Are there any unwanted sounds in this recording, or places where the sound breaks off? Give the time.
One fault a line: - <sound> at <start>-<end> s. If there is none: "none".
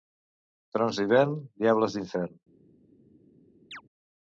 - chirp at 3.7-3.8 s